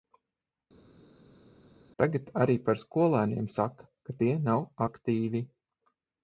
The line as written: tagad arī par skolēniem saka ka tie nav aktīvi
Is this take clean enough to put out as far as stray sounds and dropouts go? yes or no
yes